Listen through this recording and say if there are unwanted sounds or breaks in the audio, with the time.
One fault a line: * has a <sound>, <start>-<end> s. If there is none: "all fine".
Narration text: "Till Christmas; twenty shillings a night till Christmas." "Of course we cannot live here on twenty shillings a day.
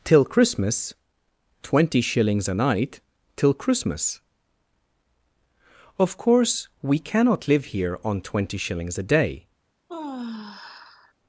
* has a sigh, 9.9-11.1 s